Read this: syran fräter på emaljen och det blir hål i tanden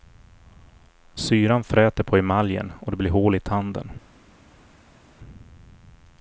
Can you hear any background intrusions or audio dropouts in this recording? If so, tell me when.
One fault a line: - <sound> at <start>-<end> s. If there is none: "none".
none